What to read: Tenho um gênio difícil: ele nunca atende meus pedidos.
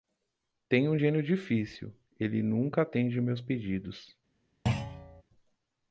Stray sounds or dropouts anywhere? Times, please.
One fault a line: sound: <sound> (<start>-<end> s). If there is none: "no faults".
sound: thud (4.7-5.2 s)